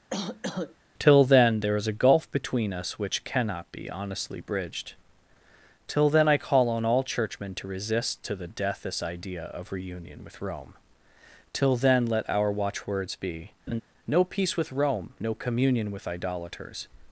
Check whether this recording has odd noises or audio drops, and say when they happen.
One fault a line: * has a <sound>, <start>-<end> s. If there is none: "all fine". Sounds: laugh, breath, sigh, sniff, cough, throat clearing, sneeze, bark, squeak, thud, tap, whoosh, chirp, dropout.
* has a cough, 0.1-0.8 s
* has a laugh, 13.7-13.8 s